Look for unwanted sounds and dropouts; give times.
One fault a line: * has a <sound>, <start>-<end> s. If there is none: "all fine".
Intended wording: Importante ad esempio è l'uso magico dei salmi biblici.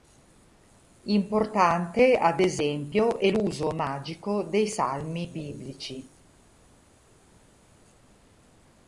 all fine